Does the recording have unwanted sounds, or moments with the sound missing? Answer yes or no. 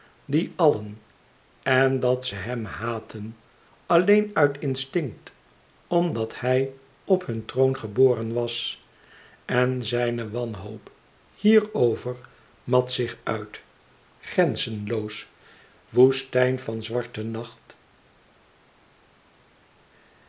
no